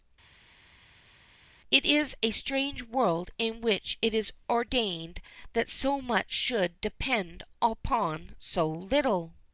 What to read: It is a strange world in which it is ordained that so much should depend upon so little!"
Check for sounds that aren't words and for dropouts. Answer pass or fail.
pass